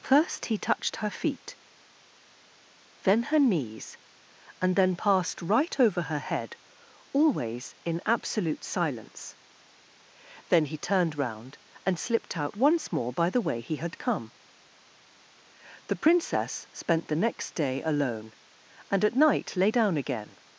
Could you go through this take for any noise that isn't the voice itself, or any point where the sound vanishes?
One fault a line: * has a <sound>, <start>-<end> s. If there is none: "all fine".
all fine